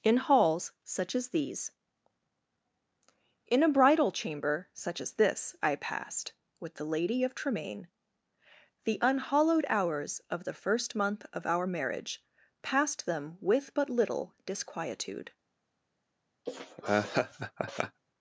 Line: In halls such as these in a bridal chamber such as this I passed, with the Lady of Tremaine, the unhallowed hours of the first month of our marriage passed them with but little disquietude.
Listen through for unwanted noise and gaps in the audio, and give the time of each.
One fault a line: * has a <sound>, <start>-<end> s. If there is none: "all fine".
* has a laugh, 16.5-18.0 s